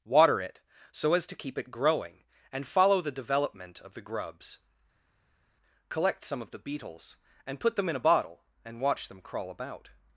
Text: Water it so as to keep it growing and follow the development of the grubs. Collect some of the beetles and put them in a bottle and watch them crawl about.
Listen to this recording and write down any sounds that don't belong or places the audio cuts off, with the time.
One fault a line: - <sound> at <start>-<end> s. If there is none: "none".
none